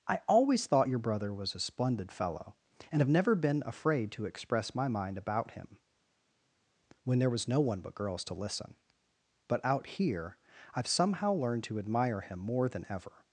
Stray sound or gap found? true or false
false